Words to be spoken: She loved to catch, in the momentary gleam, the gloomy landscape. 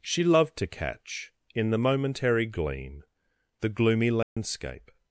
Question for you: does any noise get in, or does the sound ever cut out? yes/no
yes